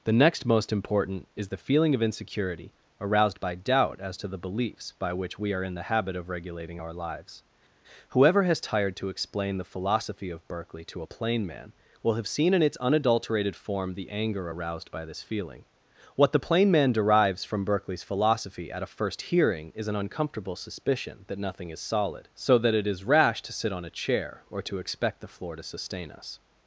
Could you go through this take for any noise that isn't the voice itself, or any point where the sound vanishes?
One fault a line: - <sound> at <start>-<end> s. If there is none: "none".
none